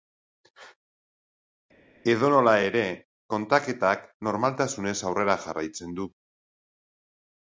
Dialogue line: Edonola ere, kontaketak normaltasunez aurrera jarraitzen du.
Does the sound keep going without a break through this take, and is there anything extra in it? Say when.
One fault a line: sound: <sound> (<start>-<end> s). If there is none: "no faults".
no faults